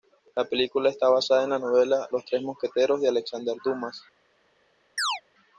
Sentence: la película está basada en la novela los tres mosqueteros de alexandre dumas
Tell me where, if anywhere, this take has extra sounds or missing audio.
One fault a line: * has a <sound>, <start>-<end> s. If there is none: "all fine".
* has a chirp, 5.0-5.2 s